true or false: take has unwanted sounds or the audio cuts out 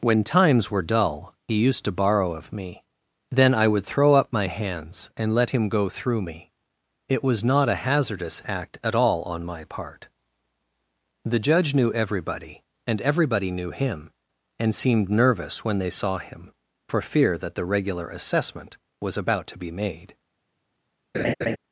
true